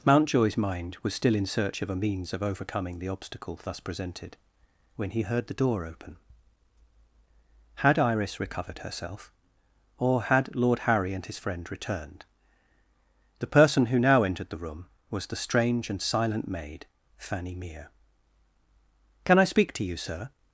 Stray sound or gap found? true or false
false